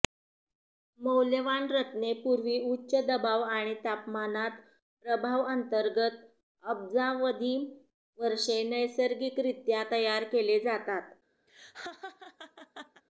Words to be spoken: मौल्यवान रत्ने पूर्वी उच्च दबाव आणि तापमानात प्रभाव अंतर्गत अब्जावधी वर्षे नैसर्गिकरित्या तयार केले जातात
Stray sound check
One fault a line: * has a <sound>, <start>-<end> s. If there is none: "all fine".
* has a laugh, 11.5-13.0 s